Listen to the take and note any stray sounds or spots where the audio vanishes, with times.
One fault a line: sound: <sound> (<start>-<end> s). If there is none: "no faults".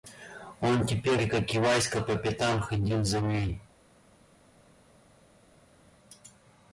no faults